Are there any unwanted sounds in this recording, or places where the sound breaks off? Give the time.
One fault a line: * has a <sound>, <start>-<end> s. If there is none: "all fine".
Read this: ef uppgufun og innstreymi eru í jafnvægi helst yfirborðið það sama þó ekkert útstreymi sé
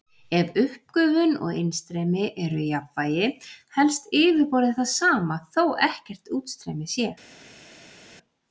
all fine